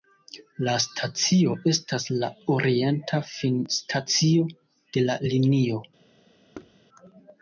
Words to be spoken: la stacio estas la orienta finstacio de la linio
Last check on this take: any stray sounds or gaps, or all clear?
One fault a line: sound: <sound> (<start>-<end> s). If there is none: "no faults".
sound: thud (6.5-6.8 s)